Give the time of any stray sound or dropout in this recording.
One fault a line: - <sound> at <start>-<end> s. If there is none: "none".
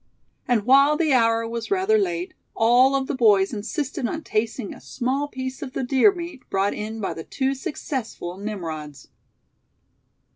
none